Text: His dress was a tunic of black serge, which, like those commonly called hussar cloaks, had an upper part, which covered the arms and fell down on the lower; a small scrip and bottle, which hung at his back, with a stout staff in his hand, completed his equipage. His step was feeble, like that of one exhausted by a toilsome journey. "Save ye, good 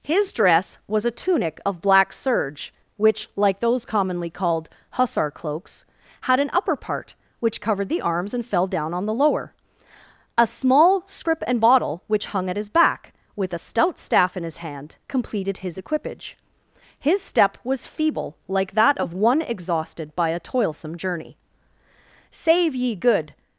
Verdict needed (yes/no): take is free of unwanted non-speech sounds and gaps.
yes